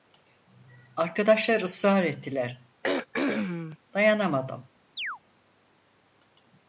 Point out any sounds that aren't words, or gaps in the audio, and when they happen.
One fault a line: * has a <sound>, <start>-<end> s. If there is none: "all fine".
* has a throat clearing, 2.8-3.8 s
* has a chirp, 5.0-5.2 s